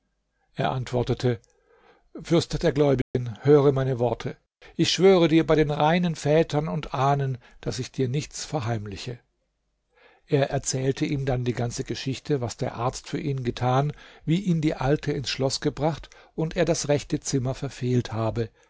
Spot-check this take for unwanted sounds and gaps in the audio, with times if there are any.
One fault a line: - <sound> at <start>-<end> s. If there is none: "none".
- dropout at 3.0-3.1 s